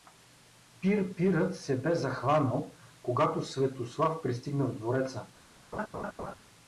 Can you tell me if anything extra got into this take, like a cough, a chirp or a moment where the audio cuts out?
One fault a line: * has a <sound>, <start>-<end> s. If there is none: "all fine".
* has a laugh, 5.7-6.3 s